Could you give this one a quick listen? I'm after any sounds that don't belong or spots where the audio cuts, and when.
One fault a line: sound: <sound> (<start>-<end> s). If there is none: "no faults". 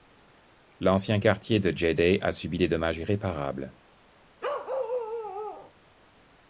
sound: bark (4.4-5.7 s)